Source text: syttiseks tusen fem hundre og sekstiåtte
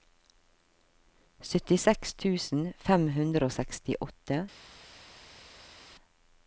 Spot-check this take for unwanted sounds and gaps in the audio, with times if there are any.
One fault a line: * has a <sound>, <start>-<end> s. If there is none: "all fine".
all fine